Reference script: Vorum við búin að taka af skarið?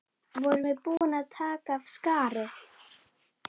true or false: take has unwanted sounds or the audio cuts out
true